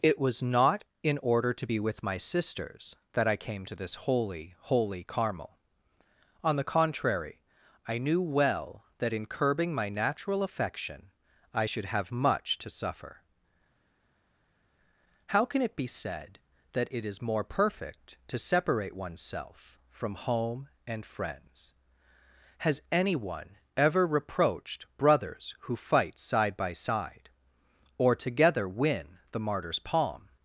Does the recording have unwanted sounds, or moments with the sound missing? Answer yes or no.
no